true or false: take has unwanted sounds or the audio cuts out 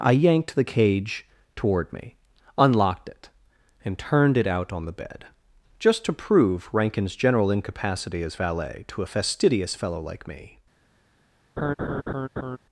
true